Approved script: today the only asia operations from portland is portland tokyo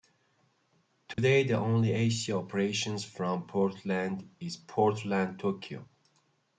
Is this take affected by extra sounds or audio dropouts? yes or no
yes